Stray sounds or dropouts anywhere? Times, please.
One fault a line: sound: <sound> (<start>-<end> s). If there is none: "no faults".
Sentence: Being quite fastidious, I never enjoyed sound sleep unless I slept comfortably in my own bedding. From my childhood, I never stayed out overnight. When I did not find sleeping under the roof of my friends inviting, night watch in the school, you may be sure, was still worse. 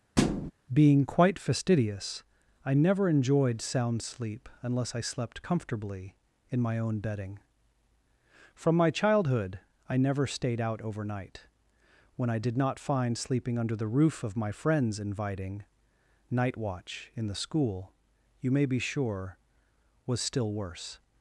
sound: thud (0.2-0.5 s)